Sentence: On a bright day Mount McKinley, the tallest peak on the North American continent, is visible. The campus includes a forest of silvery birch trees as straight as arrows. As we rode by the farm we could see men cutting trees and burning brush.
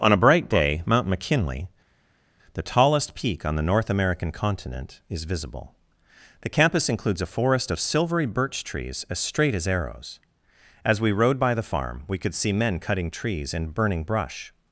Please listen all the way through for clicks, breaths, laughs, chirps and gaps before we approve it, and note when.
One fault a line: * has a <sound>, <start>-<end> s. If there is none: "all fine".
all fine